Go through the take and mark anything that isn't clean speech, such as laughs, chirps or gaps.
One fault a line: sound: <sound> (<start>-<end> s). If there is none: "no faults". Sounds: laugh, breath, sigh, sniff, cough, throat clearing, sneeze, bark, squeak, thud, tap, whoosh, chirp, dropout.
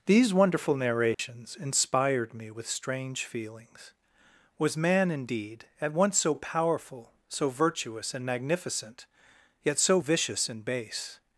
sound: dropout (1.1-1.2 s)